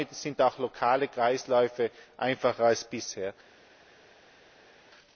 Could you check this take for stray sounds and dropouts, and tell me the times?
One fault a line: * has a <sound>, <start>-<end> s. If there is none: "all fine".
all fine